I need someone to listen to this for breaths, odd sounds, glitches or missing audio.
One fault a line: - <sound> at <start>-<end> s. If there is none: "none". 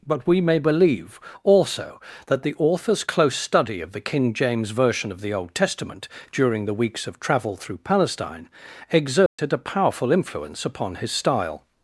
- dropout at 9.3-9.4 s